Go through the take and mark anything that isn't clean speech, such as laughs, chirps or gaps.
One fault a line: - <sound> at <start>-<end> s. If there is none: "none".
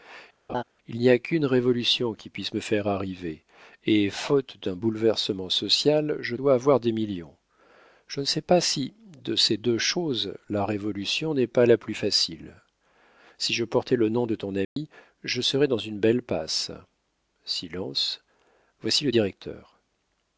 - laugh at 0.5-0.6 s
- dropout at 14.6-14.8 s